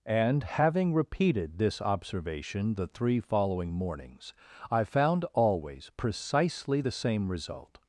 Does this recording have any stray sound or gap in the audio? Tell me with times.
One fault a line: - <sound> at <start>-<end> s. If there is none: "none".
none